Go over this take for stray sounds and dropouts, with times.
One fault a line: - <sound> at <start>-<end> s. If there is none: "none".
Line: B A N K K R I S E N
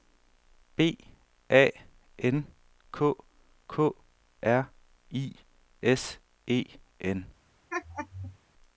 - laugh at 7.7-8.4 s